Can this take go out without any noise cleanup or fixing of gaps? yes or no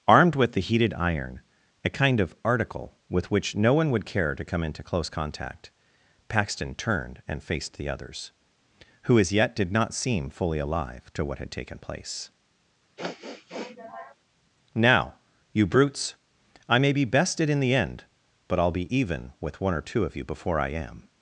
no